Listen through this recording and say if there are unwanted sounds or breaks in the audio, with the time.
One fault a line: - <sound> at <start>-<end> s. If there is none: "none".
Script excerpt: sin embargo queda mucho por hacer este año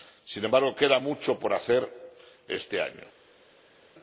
none